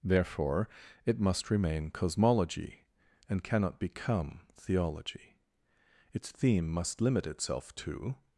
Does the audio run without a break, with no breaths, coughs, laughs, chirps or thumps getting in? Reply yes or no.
yes